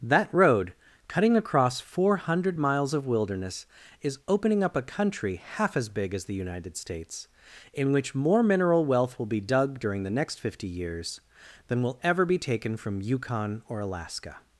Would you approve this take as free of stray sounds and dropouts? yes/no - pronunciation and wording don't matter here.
yes